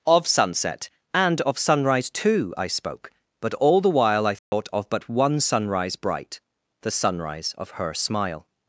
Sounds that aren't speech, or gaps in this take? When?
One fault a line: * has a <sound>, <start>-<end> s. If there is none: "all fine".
* has a dropout, 4.4-4.5 s